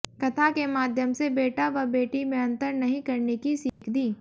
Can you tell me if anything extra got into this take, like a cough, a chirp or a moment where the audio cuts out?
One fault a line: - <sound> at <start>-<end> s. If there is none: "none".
- dropout at 3.7-3.8 s